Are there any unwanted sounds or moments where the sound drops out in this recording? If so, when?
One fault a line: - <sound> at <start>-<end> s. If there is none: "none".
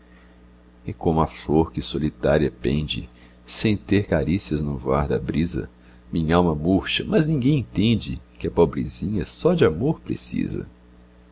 none